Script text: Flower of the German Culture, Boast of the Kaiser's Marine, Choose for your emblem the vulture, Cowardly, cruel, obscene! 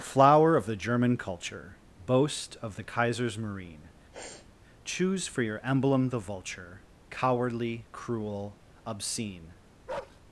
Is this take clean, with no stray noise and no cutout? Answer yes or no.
no